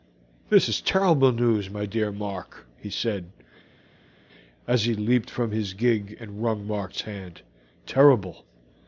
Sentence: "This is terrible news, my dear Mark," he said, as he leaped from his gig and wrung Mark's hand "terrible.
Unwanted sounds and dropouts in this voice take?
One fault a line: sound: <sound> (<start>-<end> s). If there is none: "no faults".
no faults